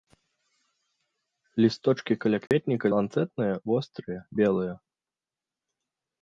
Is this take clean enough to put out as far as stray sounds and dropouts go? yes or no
no